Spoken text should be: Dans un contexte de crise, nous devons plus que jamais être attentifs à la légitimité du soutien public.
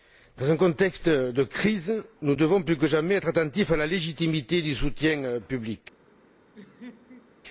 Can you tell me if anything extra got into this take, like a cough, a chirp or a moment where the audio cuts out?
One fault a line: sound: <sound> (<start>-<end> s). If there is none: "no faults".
sound: laugh (6.5-7.3 s)